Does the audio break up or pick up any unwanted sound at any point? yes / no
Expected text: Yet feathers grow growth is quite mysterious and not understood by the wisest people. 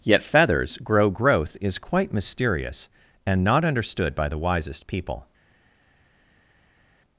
no